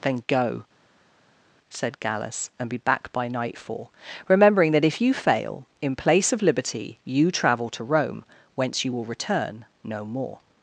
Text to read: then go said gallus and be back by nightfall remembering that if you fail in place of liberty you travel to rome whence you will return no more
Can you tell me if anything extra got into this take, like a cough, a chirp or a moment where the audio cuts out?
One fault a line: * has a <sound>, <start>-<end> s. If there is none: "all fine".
all fine